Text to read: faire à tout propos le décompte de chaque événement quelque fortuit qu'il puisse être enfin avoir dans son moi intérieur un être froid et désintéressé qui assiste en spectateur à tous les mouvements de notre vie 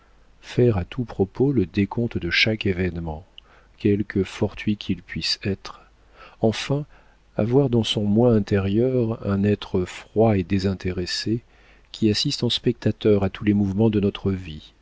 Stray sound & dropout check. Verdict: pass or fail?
pass